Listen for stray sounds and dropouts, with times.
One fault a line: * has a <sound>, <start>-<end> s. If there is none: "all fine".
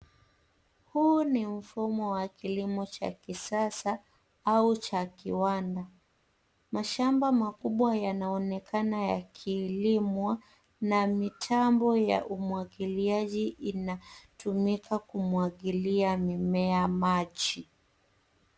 all fine